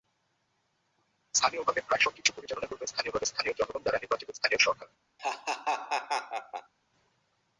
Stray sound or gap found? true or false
true